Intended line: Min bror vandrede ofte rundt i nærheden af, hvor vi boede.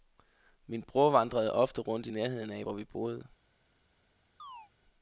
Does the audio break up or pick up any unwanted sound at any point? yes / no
yes